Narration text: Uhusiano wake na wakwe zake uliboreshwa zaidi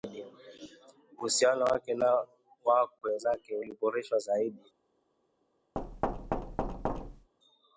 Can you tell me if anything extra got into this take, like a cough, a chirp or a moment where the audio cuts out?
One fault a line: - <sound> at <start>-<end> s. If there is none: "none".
- thud at 5.8-7.3 s